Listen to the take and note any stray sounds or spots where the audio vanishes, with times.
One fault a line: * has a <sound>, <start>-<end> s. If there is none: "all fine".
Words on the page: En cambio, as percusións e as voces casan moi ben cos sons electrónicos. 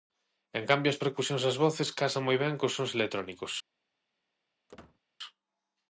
* has a squeak, 4.7-5.0 s